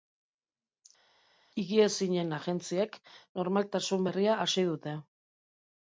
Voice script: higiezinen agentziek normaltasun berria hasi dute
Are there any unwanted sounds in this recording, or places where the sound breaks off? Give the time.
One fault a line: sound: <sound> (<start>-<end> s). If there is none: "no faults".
no faults